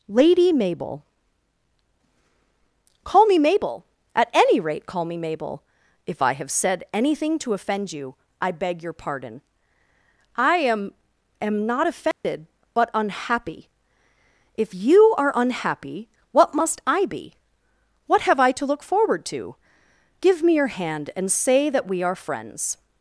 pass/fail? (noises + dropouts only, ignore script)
fail